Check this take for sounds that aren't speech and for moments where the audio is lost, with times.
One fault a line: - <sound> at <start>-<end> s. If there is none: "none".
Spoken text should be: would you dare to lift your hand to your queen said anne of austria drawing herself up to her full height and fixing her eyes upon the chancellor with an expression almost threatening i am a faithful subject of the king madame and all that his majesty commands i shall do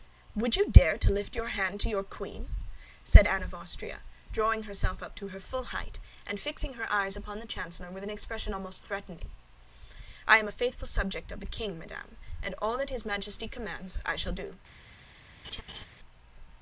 - laugh at 15.4-15.8 s